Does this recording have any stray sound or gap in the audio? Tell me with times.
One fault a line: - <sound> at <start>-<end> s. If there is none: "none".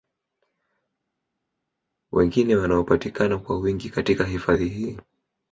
none